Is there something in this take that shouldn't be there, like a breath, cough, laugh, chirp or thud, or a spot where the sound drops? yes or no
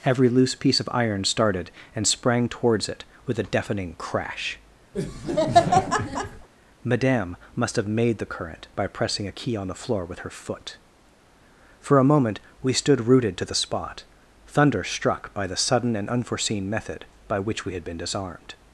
yes